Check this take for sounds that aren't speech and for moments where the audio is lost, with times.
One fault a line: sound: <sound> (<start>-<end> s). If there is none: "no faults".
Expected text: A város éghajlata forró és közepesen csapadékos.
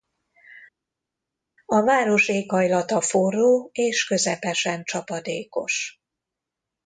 no faults